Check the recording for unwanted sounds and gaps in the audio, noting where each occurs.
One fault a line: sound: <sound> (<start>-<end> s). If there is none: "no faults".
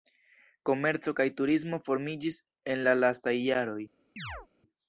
sound: chirp (4.2-4.5 s)